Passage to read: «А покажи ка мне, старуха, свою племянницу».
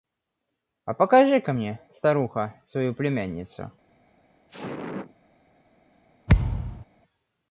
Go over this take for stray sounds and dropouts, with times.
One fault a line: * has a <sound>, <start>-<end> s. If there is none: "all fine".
* has a sneeze, 4.5-5.1 s
* has a thud, 6.3-6.9 s